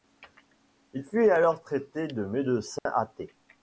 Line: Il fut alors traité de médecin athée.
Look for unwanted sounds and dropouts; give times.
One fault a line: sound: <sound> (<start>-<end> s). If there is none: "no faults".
sound: dropout (2.8-2.9 s)